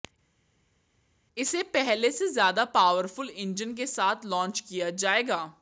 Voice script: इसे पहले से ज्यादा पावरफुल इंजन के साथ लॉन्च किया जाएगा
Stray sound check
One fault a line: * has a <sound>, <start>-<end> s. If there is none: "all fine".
all fine